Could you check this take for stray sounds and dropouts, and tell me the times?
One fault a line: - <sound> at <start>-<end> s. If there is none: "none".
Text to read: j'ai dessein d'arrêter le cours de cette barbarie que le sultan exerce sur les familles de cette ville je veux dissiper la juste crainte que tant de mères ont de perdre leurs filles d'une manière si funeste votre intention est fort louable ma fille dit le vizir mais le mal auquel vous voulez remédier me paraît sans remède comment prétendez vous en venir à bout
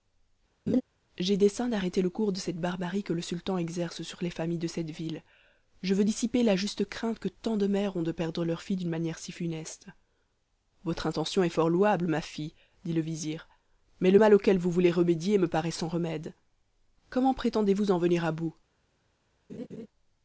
- laugh at 0.7-0.8 s
- laugh at 19.5-19.9 s